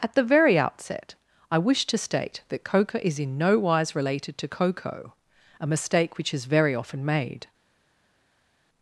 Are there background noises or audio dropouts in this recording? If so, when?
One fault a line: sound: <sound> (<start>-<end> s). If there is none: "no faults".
no faults